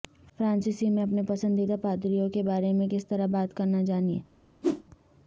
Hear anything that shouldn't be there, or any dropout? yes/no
yes